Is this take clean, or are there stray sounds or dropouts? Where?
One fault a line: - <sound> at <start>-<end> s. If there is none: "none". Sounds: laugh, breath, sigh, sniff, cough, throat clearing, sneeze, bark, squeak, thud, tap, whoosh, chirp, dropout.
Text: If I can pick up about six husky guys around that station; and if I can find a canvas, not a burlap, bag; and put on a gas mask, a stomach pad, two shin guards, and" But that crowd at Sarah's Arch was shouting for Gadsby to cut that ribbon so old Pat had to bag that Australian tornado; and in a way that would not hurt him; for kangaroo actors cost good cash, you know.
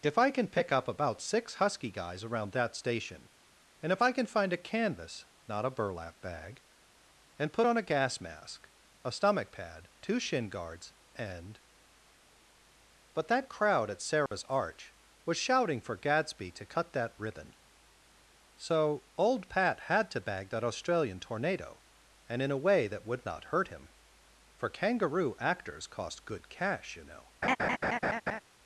- dropout at 14.3-14.3 s
- laugh at 27.4-28.4 s